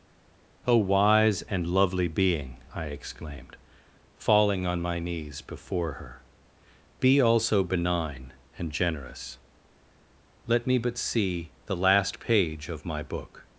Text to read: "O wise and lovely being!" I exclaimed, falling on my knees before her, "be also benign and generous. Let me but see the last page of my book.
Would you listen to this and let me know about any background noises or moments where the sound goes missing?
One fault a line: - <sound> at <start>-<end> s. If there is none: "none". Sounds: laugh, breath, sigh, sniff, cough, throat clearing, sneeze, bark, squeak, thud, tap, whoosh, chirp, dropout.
none